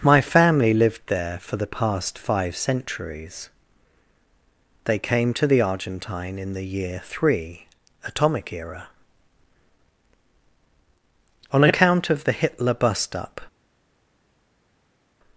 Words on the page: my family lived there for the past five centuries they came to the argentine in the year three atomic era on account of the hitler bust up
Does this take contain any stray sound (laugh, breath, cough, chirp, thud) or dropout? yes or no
no